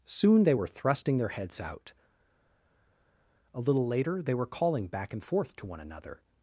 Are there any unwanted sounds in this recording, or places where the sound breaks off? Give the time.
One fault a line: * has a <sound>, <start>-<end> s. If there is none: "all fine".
all fine